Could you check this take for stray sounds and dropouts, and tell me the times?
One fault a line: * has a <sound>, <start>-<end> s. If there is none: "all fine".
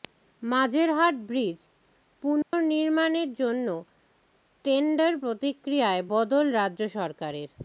* has a dropout, 2.4-2.5 s